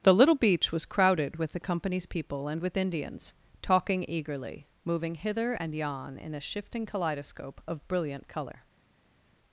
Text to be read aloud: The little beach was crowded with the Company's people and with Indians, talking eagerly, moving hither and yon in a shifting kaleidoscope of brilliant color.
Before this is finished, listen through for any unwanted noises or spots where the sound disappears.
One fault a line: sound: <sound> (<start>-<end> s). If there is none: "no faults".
no faults